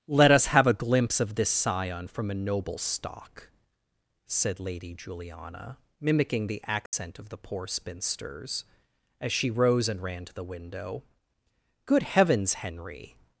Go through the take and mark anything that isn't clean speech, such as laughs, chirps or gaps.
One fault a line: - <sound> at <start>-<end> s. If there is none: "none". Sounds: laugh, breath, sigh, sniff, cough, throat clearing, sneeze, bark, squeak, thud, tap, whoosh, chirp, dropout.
- dropout at 6.9-6.9 s